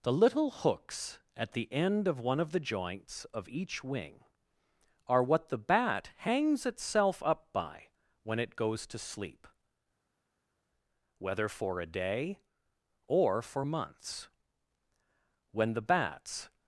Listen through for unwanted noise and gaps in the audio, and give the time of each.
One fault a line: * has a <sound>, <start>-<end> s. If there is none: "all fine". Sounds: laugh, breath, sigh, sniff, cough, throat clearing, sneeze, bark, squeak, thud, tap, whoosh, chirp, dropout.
all fine